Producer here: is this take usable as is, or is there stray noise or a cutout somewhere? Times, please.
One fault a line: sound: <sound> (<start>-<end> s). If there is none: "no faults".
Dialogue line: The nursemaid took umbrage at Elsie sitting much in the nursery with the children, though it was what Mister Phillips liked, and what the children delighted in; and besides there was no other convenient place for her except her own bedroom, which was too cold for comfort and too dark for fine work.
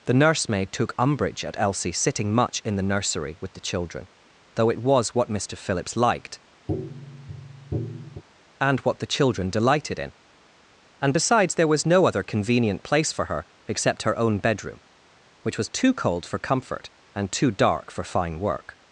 sound: tap (6.7-8.2 s)